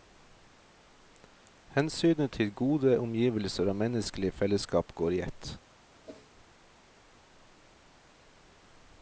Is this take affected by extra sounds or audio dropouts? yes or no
yes